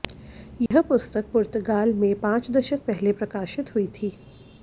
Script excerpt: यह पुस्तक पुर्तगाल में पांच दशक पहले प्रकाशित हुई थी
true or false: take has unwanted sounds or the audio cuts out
true